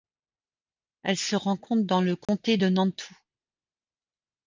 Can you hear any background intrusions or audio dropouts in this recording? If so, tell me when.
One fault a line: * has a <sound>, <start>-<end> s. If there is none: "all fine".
* has a dropout, 2.2-2.3 s